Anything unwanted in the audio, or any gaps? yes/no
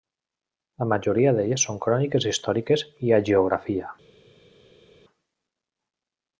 no